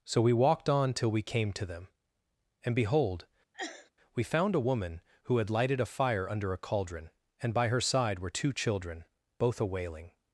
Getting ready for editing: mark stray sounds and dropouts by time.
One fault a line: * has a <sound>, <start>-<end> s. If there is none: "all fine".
* has a sneeze, 3.5-3.9 s